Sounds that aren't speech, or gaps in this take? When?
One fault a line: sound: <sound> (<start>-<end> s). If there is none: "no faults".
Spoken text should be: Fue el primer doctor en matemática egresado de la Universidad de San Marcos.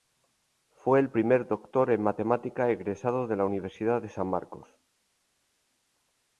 no faults